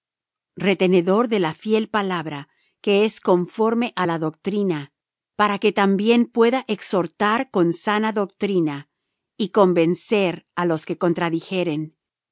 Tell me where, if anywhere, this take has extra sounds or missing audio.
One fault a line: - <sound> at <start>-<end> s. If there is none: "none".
none